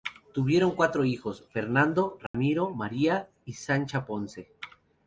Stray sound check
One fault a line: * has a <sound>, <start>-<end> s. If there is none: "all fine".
* has a dropout, 2.3-2.3 s